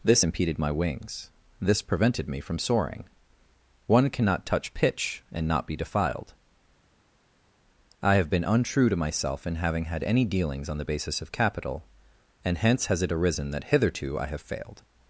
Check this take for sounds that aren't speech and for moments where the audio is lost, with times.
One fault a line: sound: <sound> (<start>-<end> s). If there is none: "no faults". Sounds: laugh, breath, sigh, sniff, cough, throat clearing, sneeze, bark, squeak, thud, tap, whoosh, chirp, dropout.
no faults